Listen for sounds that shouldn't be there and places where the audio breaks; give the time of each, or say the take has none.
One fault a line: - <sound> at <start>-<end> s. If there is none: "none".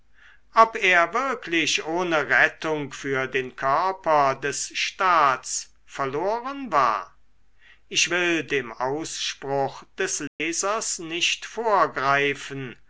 - dropout at 10.3-10.4 s